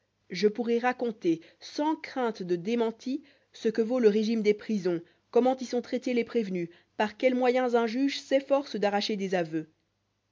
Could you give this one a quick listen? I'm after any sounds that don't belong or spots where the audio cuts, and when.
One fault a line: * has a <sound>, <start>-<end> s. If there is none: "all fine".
all fine